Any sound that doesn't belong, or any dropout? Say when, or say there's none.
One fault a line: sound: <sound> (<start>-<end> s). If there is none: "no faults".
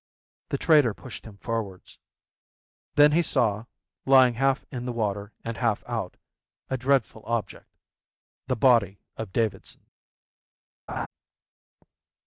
sound: laugh (10.9-11.1 s)